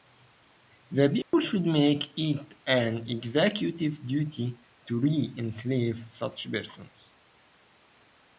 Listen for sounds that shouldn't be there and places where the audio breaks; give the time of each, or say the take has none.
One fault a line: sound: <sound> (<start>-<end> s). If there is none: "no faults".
sound: dropout (1.2-1.3 s)